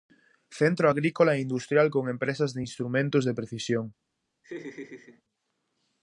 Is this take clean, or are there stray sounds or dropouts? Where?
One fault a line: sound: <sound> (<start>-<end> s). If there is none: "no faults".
sound: laugh (4.4-5.2 s)